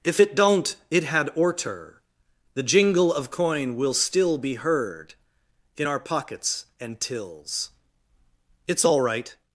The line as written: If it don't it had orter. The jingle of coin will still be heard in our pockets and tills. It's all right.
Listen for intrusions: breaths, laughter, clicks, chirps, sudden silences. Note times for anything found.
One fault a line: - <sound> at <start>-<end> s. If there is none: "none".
none